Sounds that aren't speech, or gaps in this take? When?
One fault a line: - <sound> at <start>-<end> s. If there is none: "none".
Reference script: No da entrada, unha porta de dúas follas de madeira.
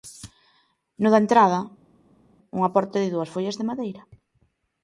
none